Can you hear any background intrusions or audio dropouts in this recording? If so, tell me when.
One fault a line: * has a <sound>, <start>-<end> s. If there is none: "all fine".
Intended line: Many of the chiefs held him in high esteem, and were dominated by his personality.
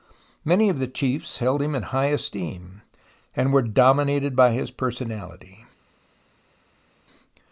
all fine